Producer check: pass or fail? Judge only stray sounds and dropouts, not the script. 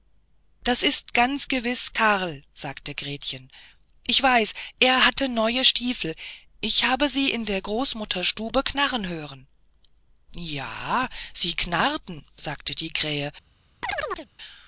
fail